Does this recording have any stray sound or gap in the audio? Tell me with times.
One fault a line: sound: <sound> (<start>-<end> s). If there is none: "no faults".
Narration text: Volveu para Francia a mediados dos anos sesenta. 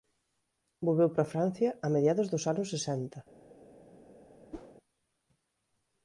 sound: whoosh (4.5-4.8 s)